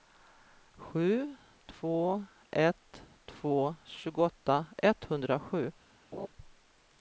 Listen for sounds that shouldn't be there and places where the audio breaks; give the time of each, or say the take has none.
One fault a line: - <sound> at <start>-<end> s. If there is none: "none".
- laugh at 6.1-6.3 s